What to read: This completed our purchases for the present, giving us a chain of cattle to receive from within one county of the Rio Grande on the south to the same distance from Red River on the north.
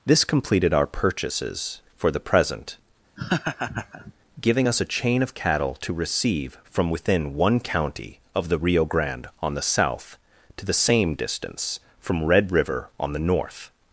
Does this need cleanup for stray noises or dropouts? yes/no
yes